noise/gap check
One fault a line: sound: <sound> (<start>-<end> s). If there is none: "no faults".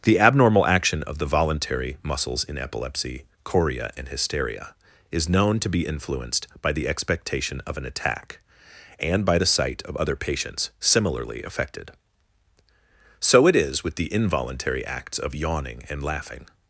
no faults